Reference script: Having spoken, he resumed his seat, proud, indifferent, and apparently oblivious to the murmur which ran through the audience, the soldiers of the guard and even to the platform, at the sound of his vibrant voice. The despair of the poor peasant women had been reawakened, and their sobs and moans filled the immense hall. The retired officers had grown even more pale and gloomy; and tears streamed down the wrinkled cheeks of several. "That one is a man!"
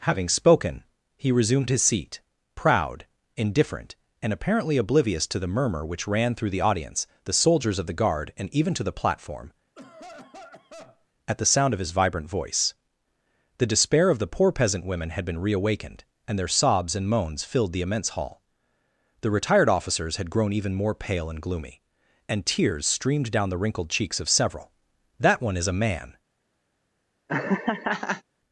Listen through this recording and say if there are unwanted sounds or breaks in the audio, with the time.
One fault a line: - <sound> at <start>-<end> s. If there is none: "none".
- cough at 9.8-11.1 s
- laugh at 27.3-28.2 s